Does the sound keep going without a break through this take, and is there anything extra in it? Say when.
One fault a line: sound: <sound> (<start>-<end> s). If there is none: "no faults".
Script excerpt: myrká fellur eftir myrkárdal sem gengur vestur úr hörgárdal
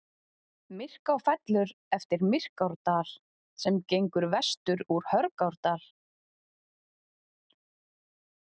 no faults